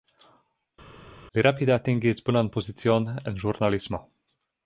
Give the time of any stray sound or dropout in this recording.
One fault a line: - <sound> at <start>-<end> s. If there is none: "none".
none